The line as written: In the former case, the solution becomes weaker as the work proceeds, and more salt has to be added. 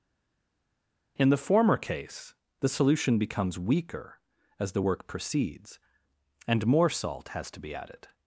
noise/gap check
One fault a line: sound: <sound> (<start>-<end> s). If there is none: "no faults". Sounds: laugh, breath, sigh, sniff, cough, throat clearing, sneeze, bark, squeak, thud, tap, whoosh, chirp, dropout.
no faults